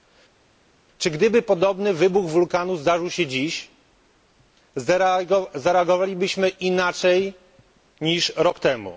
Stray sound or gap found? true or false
false